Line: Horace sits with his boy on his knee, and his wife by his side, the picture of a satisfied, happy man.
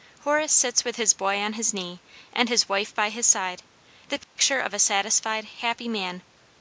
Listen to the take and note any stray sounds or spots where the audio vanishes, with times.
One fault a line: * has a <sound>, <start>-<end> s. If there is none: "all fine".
* has a dropout, 4.2-4.4 s